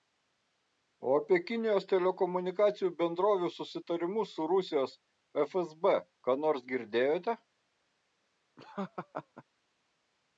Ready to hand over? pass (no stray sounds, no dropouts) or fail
fail